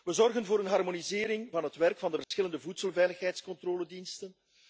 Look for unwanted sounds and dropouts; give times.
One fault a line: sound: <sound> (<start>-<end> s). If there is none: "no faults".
sound: dropout (2.2-2.3 s)